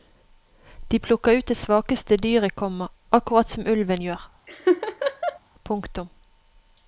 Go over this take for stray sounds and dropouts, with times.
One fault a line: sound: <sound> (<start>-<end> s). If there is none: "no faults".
sound: laugh (4.5-5.4 s)